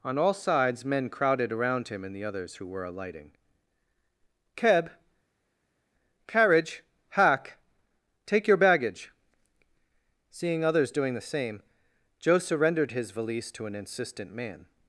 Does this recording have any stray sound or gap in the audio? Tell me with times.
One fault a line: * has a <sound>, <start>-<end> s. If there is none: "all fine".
all fine